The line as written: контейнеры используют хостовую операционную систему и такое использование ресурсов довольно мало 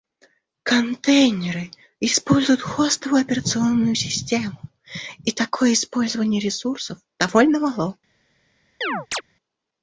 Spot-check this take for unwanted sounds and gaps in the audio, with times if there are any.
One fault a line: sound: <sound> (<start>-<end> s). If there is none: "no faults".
sound: chirp (8.8-9.2 s)